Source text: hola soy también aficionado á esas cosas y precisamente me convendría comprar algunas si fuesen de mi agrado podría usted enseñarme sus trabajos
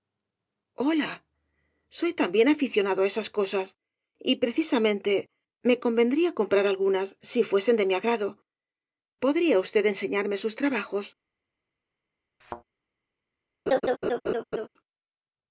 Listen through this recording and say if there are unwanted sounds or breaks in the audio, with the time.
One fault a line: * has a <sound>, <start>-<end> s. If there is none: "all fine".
* has a thud, 12.4-12.6 s
* has a laugh, 13.7-14.7 s